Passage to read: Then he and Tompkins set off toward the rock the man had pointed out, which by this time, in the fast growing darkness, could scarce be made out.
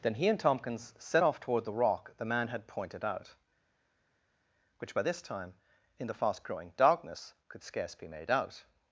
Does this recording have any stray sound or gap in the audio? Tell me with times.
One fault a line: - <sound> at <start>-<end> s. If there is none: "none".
none